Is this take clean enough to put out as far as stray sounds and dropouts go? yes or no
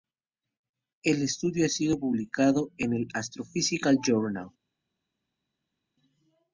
yes